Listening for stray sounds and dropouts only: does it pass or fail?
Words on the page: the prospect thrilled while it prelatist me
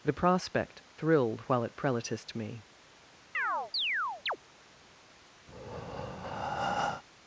fail